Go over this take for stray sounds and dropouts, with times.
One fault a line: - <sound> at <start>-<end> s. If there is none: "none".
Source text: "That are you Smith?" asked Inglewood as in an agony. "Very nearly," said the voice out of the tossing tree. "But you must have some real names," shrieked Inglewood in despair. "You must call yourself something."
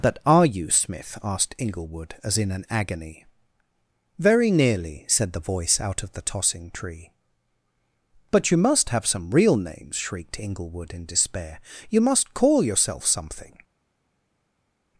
none